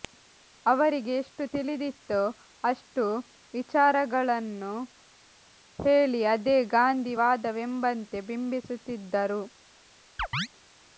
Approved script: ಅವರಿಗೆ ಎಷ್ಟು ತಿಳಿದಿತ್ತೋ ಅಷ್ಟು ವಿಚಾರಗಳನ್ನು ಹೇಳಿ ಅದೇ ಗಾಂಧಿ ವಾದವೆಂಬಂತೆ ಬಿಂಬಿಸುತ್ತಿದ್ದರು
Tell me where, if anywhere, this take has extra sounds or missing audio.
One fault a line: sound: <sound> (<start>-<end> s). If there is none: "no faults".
sound: chirp (10.2-10.5 s)